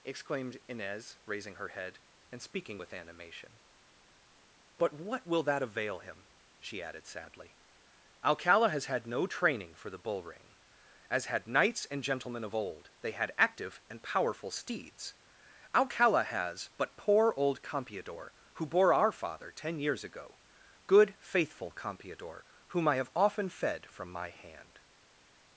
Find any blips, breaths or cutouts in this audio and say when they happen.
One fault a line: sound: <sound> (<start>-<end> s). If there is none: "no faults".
no faults